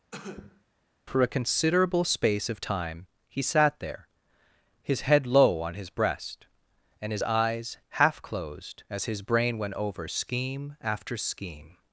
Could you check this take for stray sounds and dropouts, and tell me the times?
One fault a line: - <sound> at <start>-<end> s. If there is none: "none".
- cough at 0.1-0.6 s